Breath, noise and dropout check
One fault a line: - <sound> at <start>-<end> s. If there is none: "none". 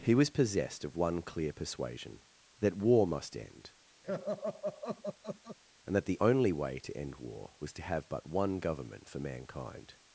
- laugh at 4.0-5.6 s